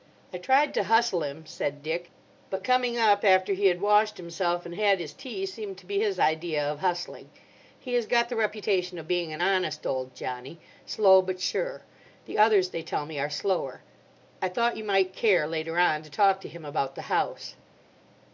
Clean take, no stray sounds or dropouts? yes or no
yes